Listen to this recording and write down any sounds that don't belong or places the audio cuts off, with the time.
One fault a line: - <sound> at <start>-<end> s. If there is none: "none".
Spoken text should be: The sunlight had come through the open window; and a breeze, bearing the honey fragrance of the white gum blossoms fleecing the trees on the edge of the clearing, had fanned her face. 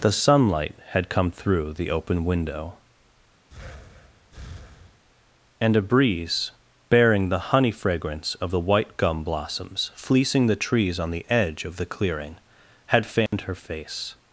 - breath at 3.5-5.0 s
- dropout at 13.3-13.3 s